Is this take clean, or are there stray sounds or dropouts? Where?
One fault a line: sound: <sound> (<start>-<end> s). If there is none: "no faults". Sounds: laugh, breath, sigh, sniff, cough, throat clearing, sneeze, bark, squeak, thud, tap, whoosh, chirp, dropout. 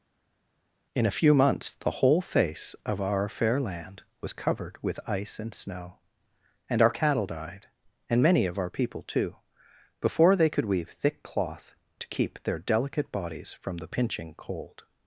no faults